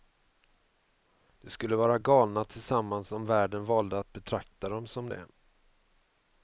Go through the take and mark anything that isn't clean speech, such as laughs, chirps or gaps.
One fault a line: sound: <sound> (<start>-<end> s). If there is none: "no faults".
no faults